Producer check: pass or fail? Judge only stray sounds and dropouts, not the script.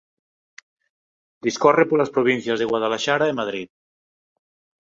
pass